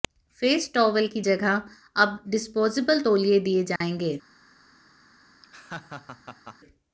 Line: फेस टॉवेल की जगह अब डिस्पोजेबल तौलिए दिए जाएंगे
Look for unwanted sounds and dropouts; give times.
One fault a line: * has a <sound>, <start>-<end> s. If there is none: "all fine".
* has a dropout, 3.8-3.8 s
* has a laugh, 5.4-6.6 s